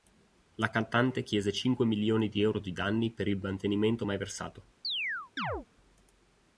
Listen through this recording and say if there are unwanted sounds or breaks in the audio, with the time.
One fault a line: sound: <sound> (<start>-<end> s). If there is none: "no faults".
sound: chirp (4.8-5.7 s)